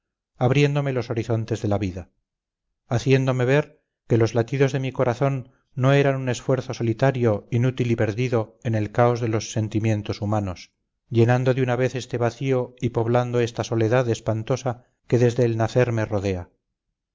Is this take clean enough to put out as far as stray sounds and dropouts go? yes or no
yes